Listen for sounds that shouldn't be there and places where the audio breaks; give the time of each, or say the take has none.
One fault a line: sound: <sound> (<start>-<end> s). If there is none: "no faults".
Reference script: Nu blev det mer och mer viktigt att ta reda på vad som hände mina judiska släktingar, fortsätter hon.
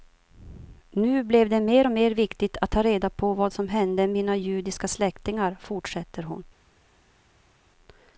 no faults